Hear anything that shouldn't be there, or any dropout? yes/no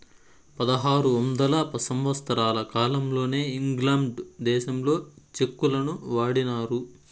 no